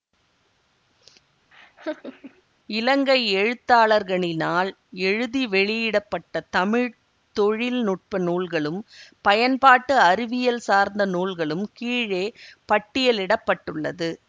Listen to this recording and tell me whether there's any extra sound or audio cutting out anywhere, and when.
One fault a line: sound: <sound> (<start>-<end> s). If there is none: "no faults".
sound: laugh (1.5-2.4 s)